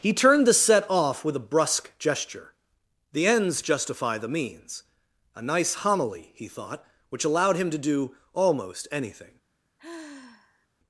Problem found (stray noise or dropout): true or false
true